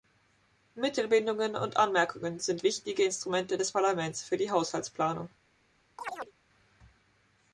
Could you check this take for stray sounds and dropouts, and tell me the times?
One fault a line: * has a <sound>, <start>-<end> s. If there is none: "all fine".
* has a chirp, 6.0-6.3 s